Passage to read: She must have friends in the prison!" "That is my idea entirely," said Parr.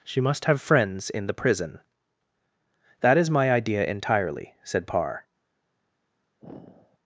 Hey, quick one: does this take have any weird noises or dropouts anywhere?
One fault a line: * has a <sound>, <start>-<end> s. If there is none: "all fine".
* has a sigh, 6.4-7.0 s